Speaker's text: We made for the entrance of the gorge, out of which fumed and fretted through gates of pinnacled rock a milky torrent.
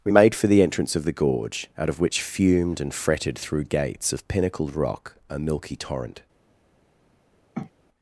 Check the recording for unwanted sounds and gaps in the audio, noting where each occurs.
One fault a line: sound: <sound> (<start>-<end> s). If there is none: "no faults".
sound: sniff (7.5-7.7 s)